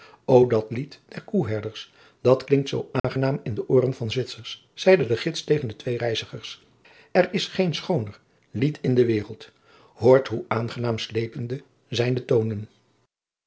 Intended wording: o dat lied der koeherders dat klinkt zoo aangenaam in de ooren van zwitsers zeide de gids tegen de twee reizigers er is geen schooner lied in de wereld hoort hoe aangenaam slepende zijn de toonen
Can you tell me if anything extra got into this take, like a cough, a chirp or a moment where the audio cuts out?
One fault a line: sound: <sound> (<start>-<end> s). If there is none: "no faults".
sound: dropout (3.0-3.0 s)